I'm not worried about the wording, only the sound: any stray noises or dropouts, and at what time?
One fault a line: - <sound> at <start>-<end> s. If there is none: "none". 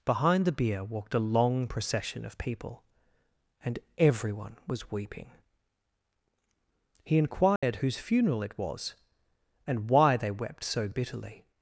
- dropout at 7.6-7.6 s